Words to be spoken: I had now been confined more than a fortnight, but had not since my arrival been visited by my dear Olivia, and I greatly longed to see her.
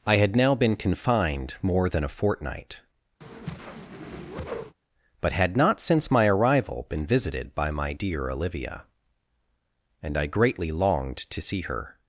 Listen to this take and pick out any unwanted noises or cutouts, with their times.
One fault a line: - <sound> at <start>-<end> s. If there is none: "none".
- whoosh at 3.2-4.8 s